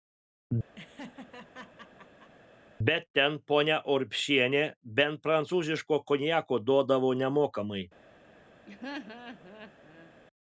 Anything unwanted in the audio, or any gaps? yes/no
yes